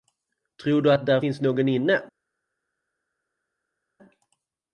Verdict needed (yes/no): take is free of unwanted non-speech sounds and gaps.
yes